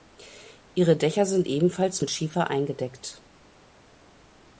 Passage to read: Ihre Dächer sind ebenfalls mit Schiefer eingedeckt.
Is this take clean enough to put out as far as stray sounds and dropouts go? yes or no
yes